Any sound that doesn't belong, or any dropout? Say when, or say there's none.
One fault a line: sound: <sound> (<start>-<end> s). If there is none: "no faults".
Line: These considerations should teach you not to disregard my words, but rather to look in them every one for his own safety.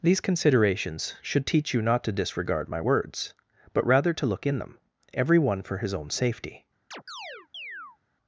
sound: chirp (6.9-8.0 s)